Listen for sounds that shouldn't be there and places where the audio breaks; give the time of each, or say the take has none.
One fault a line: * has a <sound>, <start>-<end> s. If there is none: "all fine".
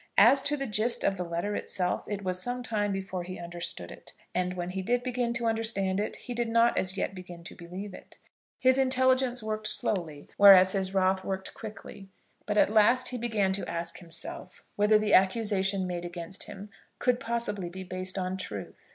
all fine